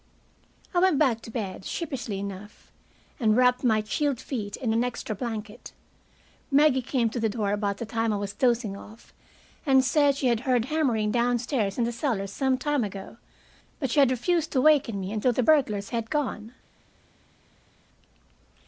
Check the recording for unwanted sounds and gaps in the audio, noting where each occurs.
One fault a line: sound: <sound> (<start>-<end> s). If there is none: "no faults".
no faults